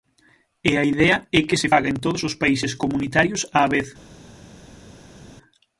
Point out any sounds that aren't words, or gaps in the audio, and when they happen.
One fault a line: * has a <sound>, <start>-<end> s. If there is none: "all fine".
all fine